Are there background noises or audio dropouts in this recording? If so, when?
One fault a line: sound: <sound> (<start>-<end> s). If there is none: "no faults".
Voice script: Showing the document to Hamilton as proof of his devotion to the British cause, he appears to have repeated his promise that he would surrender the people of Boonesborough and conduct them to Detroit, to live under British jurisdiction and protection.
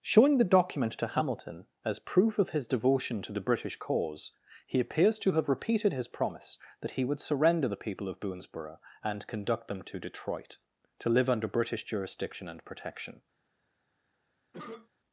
sound: cough (14.5-14.9 s)